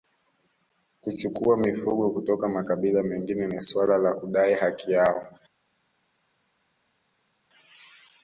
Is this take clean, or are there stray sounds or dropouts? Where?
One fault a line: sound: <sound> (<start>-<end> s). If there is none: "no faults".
no faults